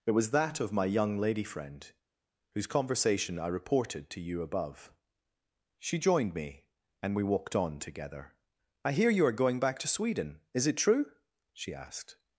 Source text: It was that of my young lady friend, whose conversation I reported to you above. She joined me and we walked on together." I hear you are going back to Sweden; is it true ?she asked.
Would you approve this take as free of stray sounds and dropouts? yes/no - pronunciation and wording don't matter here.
yes